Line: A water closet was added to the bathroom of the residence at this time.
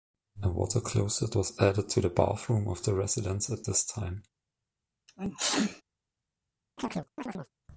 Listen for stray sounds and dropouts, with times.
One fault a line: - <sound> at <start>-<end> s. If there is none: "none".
- sneeze at 5.1-5.8 s
- chirp at 6.8-7.5 s